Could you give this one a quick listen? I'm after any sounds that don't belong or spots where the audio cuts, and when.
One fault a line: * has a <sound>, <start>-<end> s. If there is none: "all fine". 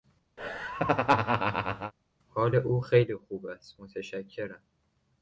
* has a laugh, 0.4-1.9 s